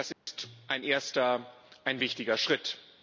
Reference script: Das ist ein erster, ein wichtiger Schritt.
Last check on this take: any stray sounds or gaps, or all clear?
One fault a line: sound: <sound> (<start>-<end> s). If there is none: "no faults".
sound: dropout (0.1-0.3 s)